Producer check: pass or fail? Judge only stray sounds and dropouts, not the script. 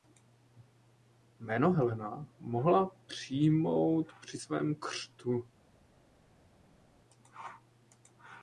pass